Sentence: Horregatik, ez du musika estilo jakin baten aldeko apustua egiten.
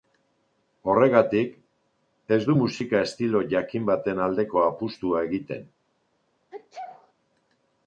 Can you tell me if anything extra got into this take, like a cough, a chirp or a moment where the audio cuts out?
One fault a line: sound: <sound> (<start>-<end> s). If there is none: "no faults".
sound: sneeze (6.5-7.1 s)